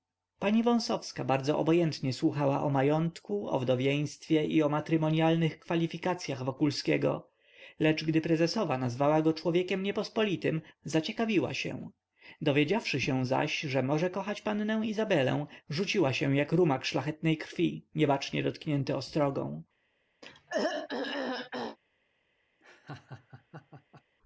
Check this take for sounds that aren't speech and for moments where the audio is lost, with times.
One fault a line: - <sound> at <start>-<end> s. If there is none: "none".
- throat clearing at 20.2-21.8 s
- laugh at 22.6-24.0 s